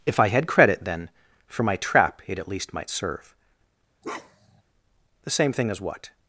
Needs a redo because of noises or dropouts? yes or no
yes